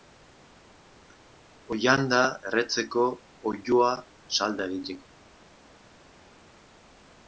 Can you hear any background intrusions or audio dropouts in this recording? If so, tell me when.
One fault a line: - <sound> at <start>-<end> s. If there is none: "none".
none